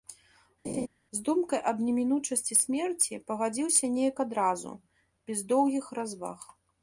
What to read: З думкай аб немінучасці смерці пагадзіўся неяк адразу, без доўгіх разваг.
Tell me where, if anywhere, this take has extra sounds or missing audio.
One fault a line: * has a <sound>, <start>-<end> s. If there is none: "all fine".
* has a laugh, 0.6-0.9 s